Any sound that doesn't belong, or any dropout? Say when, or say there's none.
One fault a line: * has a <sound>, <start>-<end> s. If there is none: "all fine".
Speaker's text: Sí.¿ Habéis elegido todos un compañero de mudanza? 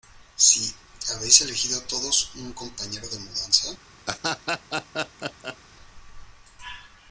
* has a laugh, 4.1-5.6 s